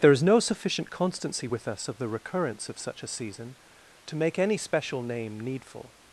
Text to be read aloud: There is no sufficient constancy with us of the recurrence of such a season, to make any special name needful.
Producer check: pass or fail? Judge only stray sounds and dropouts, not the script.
pass